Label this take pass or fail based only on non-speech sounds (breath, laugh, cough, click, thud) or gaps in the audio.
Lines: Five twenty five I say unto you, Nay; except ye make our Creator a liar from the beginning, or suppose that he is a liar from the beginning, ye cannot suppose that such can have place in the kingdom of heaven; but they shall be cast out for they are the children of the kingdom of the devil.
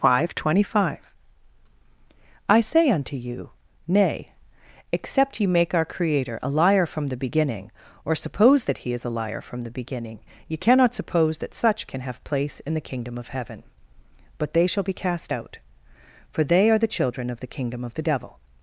pass